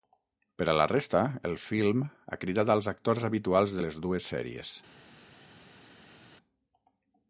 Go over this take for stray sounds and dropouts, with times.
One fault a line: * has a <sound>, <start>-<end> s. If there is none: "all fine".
all fine